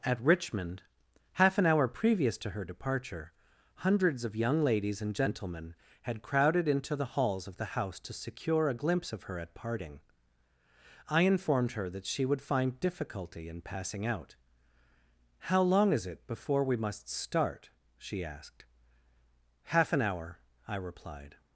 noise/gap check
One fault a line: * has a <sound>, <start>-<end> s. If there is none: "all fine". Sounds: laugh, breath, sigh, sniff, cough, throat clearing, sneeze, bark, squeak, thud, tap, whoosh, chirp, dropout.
all fine